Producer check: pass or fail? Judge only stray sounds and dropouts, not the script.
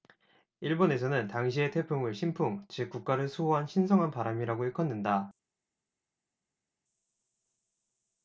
pass